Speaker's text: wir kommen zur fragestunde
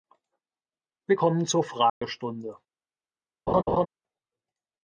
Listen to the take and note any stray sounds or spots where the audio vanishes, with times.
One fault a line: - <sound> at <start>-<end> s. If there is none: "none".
- dropout at 1.9-2.0 s
- laugh at 3.5-3.9 s